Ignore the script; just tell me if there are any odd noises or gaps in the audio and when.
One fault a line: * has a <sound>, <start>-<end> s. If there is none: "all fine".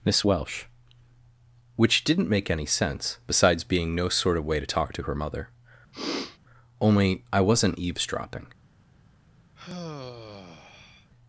* has a sniff, 5.9-6.4 s
* has a sigh, 9.6-11.1 s